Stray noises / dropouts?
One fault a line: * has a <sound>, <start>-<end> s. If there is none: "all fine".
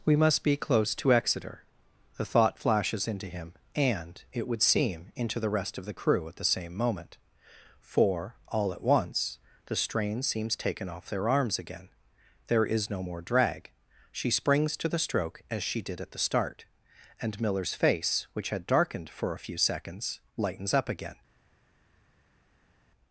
all fine